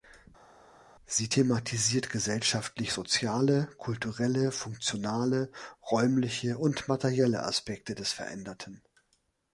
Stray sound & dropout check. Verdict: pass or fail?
pass